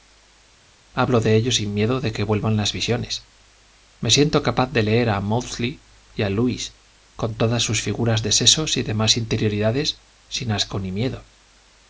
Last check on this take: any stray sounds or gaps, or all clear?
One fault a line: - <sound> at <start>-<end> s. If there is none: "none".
none